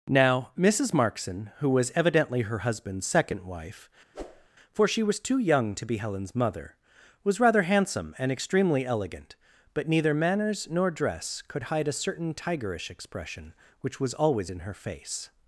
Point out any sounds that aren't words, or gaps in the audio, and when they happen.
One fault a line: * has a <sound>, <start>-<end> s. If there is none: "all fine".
* has a whoosh, 4.1-4.5 s